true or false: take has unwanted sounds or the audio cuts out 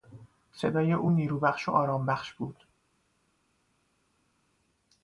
false